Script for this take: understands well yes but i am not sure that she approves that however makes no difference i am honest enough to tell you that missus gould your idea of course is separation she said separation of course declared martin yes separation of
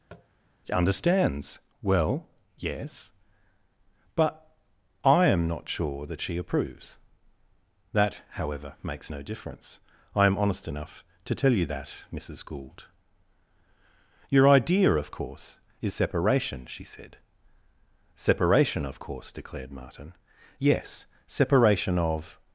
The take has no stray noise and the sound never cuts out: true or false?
false